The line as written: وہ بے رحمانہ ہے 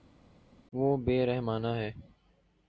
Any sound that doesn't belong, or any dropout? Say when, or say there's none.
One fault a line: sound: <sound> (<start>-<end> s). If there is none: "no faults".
no faults